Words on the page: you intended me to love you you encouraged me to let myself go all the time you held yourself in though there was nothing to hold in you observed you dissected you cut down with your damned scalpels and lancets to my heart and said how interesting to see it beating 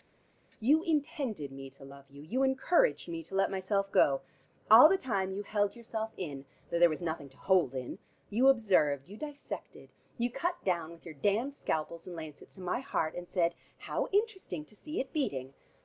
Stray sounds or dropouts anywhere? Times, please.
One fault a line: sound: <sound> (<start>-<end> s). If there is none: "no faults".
no faults